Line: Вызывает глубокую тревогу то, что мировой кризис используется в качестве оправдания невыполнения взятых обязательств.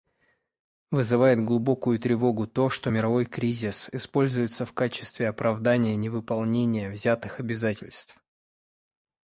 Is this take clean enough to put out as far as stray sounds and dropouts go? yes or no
yes